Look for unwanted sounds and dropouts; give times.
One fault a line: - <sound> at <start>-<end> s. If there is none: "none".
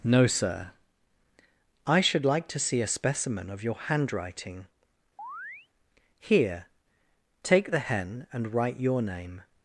- chirp at 5.2-5.7 s